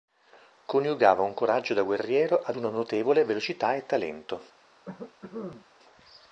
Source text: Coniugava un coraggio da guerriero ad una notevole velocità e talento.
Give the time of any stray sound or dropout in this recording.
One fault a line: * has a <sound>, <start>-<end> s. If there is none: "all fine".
* has a cough, 4.8-5.7 s